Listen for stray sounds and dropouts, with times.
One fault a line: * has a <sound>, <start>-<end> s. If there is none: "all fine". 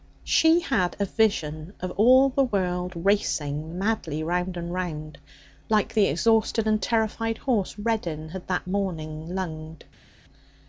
all fine